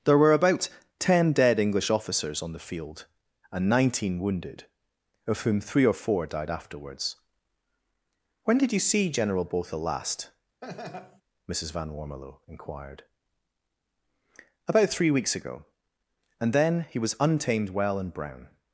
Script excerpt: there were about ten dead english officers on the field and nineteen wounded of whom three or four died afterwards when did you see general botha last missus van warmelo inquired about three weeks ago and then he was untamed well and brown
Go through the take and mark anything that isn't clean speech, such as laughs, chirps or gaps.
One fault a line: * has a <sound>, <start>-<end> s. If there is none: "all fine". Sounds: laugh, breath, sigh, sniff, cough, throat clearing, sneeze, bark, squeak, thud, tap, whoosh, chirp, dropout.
* has a laugh, 10.6-11.2 s